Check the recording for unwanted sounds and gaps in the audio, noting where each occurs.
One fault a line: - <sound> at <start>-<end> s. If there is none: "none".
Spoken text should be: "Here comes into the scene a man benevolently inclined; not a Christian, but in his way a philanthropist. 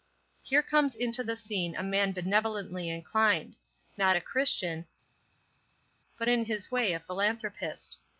none